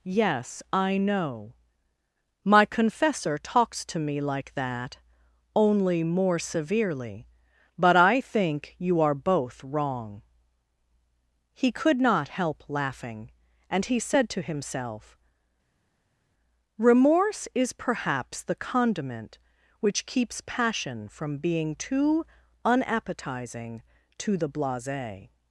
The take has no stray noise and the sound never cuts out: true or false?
true